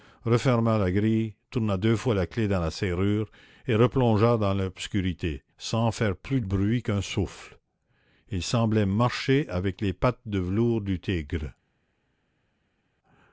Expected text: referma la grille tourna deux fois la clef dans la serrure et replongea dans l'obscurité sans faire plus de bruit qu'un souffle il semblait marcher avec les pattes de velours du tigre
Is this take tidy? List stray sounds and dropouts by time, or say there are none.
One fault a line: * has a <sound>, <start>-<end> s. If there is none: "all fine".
all fine